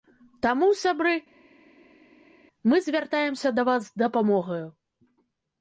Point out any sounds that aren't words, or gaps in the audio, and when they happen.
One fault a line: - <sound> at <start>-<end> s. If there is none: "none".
none